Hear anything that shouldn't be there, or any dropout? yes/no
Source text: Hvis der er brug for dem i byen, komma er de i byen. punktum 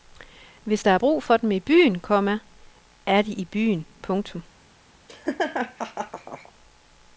yes